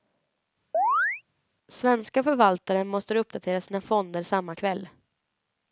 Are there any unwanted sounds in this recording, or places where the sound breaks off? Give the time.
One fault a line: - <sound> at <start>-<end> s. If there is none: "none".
- chirp at 0.7-1.2 s